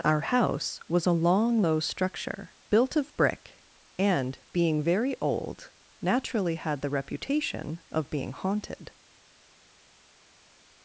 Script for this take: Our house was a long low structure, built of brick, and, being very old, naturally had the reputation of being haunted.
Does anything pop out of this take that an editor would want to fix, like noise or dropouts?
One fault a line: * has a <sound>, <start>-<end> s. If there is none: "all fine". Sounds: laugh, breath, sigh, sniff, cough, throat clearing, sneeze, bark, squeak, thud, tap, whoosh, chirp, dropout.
all fine